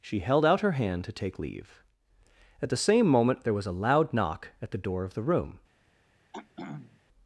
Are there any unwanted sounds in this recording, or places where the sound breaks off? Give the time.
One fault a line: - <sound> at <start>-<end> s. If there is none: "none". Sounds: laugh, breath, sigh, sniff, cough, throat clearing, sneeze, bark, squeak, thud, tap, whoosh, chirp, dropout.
- throat clearing at 6.3-7.0 s